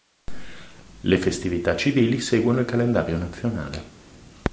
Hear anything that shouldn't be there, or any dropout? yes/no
no